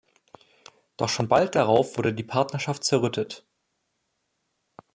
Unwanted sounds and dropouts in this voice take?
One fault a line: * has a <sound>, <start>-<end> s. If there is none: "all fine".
all fine